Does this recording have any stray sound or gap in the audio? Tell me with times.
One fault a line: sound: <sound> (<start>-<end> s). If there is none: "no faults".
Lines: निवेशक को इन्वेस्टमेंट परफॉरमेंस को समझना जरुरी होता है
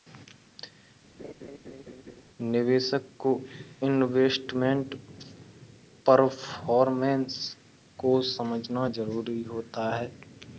sound: laugh (1.2-2.2 s)